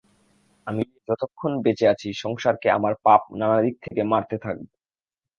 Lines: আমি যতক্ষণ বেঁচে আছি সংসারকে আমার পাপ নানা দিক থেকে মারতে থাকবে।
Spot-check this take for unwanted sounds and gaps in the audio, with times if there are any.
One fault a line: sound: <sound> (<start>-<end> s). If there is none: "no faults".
sound: dropout (3.9-3.9 s)